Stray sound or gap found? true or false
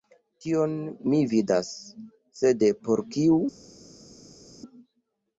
false